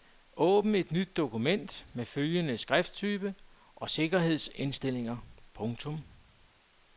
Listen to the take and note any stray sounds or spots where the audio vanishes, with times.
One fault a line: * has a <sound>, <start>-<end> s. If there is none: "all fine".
all fine